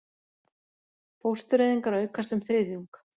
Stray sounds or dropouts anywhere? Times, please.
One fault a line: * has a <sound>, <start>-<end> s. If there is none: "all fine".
all fine